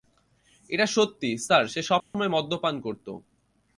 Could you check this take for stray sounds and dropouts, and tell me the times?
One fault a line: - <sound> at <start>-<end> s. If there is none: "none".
- dropout at 2.0-2.1 s